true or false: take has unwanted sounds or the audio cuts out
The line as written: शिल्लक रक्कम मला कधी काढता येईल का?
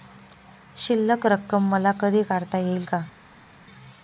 false